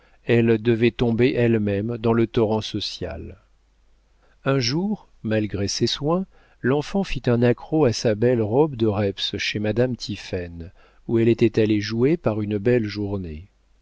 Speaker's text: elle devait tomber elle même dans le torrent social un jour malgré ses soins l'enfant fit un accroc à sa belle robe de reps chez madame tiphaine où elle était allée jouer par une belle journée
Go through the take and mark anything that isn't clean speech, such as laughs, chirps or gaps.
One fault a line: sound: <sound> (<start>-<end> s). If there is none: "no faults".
no faults